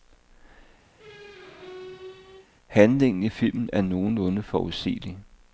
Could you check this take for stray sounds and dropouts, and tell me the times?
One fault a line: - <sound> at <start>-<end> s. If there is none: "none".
- squeak at 0.9-2.5 s